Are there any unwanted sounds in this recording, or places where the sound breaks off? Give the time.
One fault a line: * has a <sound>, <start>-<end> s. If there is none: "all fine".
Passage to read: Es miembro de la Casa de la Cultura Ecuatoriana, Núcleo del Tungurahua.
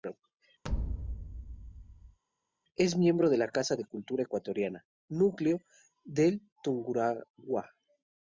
* has a thud, 0.6-2.2 s